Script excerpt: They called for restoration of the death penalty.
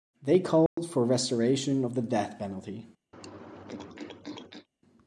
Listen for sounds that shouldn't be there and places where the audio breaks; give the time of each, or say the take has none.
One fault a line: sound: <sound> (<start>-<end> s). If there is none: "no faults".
sound: dropout (0.7-0.8 s)
sound: throat clearing (3.1-4.7 s)